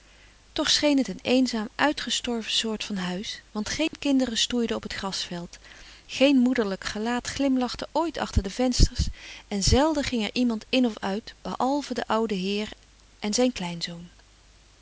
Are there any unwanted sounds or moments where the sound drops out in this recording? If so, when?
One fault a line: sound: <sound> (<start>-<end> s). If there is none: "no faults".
sound: dropout (3.9-3.9 s)